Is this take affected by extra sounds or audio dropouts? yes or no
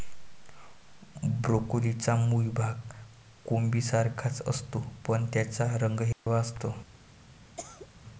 yes